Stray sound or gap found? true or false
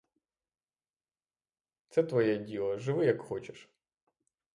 false